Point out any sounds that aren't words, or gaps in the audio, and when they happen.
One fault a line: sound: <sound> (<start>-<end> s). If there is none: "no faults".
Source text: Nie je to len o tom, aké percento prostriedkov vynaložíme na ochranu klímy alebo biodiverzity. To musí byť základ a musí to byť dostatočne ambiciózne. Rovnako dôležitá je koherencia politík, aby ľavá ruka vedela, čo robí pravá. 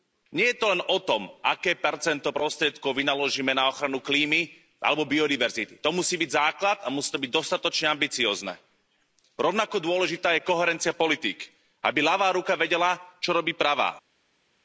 no faults